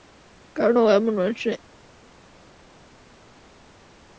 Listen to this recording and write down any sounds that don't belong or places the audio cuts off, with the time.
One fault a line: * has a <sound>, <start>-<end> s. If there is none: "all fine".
all fine